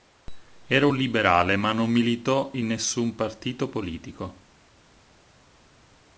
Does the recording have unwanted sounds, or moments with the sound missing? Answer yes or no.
no